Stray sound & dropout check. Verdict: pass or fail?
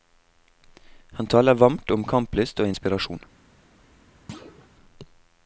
fail